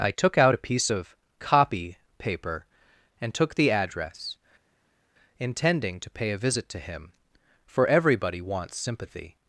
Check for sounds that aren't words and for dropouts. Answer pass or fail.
pass